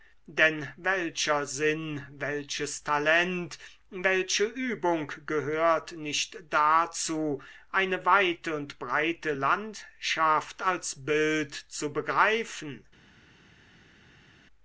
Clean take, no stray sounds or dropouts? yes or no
yes